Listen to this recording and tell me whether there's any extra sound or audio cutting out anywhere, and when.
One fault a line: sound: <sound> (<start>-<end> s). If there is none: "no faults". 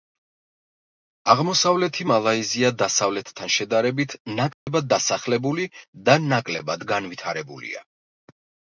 sound: dropout (4.5-4.7 s)